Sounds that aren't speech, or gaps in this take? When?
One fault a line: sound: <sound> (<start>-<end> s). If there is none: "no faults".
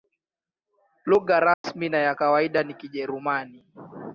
sound: dropout (1.5-1.6 s)